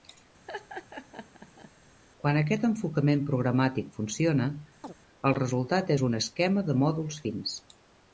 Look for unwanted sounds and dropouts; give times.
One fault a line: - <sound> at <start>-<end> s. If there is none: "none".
- laugh at 0.5-1.7 s
- chirp at 4.8-4.9 s